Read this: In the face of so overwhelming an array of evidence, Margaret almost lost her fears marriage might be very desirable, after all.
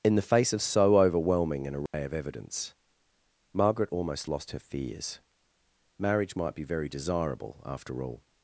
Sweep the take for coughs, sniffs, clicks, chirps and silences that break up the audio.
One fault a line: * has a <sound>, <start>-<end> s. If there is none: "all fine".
* has a dropout, 1.9-1.9 s